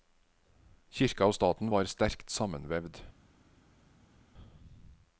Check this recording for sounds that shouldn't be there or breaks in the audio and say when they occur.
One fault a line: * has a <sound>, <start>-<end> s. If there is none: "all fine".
all fine